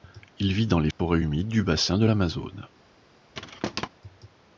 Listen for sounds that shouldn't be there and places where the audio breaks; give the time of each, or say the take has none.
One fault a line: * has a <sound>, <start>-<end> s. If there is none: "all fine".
* has a dropout, 0.9-1.0 s
* has a thud, 3.3-3.9 s